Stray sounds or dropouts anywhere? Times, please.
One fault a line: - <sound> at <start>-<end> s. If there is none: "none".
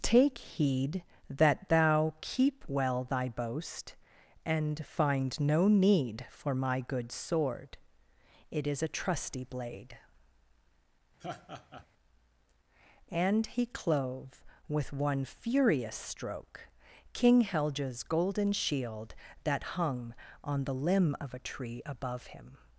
- laugh at 11.2-11.9 s